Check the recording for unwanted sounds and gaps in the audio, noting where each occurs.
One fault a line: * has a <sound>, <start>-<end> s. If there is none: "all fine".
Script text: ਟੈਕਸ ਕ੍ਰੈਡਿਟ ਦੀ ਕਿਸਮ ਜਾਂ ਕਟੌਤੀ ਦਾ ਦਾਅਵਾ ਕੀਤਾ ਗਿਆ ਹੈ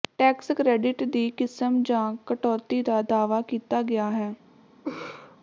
* has a laugh, 4.8-5.4 s